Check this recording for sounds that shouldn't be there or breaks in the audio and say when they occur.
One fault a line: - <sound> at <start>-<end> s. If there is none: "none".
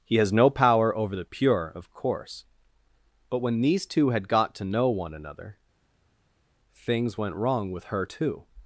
none